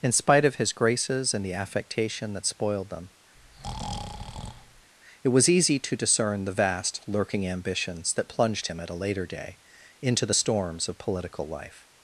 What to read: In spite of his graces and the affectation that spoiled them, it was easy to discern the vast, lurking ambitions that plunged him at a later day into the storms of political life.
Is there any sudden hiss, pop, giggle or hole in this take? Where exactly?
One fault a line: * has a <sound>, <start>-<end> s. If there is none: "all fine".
* has a breath, 3.4-4.9 s